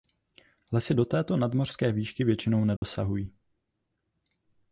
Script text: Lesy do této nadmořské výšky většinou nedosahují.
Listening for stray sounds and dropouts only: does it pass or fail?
fail